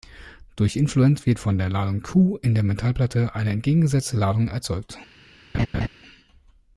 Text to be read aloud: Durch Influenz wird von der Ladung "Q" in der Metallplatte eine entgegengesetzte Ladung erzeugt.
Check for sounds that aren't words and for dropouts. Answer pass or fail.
fail